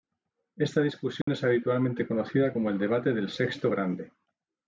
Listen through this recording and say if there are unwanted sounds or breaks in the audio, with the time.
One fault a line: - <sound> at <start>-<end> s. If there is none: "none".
- dropout at 1.2-1.3 s